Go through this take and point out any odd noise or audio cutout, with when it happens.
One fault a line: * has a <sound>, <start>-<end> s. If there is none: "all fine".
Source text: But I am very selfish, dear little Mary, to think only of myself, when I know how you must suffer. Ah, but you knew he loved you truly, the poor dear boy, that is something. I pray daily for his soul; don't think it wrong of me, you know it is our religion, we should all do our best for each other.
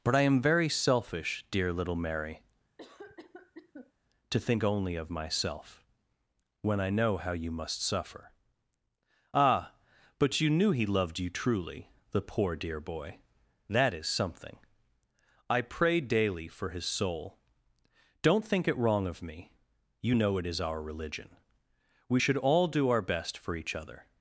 * has a cough, 2.8-3.9 s